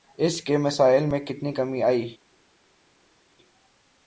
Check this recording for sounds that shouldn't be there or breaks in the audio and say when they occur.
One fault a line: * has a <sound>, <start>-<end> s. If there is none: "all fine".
all fine